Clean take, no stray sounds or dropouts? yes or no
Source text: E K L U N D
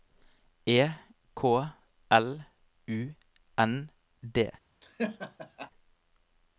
no